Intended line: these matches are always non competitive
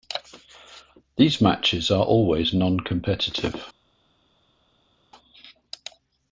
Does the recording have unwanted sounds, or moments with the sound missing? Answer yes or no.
no